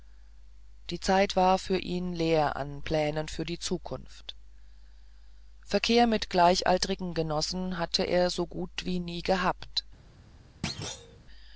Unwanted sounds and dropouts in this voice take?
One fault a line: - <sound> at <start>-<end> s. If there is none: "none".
- thud at 10.6-11.2 s